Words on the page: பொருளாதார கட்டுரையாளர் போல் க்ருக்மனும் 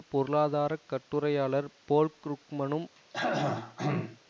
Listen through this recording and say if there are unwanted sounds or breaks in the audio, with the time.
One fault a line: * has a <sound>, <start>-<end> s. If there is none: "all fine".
* has a throat clearing, 2.9-4.2 s